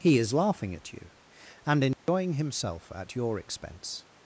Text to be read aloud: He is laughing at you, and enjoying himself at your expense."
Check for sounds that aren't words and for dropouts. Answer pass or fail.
fail